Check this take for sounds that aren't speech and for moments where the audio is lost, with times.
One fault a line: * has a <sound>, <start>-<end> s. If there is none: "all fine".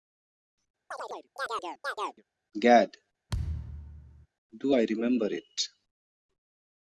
* has a chirp, 0.9-2.2 s
* has a thud, 3.3-4.3 s